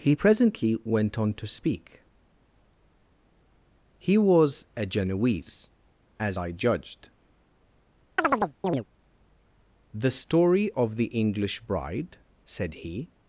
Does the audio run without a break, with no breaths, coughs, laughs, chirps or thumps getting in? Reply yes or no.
no